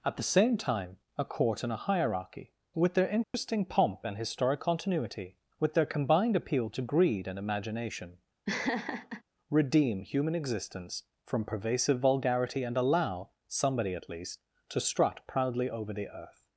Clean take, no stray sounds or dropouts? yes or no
no